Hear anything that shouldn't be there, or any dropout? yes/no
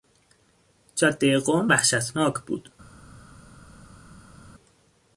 no